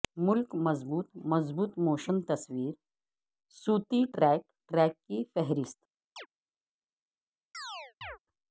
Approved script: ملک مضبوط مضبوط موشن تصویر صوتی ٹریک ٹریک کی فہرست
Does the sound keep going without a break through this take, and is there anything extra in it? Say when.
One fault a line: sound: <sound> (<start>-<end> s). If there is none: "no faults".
sound: chirp (6.2-6.3 s)
sound: chirp (7.5-8.2 s)